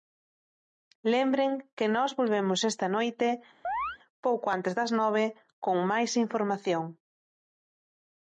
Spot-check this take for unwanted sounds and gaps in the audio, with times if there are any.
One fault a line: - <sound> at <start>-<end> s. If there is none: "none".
- chirp at 3.6-4.0 s